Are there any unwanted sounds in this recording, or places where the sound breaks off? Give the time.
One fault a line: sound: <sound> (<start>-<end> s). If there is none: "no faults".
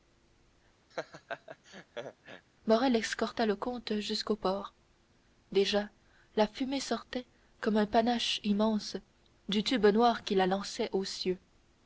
sound: laugh (0.9-2.5 s)